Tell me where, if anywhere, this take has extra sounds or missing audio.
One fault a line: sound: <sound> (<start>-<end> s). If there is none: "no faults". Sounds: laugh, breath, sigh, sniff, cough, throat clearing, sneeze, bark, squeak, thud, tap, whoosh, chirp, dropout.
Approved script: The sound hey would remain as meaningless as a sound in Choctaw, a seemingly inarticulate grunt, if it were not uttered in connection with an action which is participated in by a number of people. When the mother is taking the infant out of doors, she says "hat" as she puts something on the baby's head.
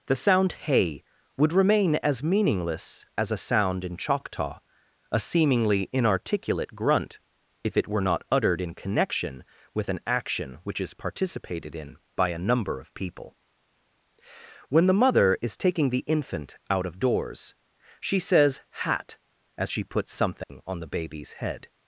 sound: dropout (20.4-20.5 s)